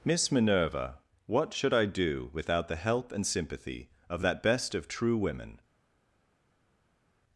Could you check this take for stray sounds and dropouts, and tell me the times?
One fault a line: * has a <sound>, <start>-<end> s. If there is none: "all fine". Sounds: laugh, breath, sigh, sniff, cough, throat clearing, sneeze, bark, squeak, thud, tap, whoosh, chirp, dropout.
all fine